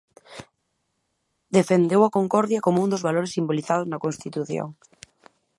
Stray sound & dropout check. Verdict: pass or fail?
pass